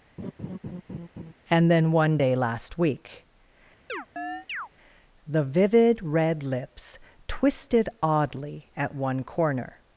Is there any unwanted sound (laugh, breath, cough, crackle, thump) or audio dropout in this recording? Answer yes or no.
yes